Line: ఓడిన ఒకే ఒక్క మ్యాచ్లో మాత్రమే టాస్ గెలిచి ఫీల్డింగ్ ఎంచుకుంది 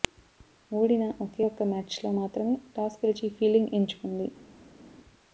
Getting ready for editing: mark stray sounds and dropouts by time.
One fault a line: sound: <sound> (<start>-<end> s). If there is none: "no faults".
no faults